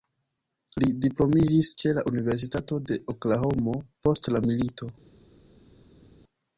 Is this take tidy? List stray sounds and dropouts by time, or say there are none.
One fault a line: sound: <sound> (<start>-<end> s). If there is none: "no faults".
no faults